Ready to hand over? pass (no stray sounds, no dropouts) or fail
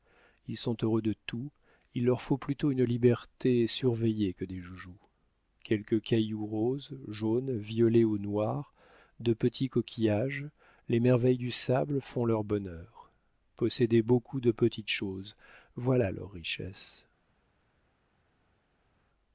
pass